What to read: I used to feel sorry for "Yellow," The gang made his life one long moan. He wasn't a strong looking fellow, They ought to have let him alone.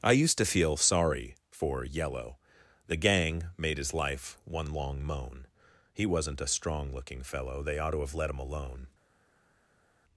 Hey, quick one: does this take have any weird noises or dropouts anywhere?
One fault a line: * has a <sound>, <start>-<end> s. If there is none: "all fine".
all fine